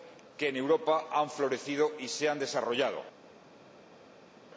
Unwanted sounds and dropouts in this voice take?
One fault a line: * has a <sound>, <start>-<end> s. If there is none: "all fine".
all fine